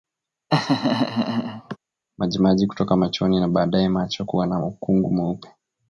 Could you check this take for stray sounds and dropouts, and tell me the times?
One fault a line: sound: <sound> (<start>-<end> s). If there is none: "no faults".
sound: laugh (0.5-1.8 s)